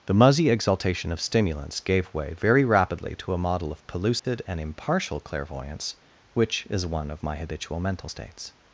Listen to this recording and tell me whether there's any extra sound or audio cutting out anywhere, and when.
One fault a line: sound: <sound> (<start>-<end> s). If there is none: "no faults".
sound: dropout (4.2-4.2 s)